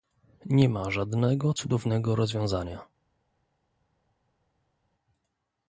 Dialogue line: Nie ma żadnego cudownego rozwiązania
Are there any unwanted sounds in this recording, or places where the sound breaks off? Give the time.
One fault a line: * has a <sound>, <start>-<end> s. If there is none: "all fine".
all fine